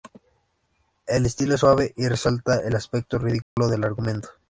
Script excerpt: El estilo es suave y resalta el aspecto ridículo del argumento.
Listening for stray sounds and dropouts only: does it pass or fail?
fail